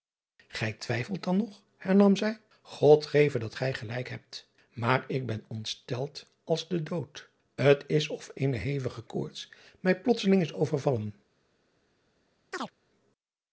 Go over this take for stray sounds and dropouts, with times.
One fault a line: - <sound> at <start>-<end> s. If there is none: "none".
- chirp at 12.5-12.7 s